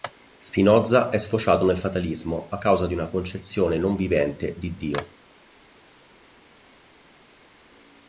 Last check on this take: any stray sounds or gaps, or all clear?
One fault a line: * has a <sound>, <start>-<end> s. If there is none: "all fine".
all fine